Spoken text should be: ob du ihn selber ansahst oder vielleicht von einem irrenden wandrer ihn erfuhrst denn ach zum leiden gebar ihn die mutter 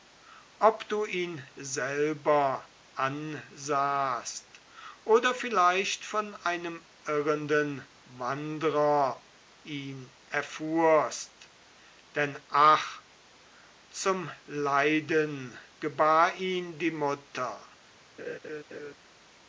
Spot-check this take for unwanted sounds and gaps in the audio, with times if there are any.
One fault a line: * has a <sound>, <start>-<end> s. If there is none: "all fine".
* has a laugh, 18.2-18.9 s